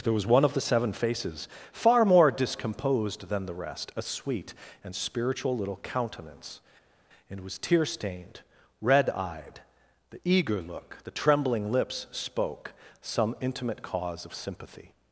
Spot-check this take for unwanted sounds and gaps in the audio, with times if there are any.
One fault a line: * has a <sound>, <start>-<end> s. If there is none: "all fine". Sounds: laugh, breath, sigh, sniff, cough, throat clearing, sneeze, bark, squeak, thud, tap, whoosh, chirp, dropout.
all fine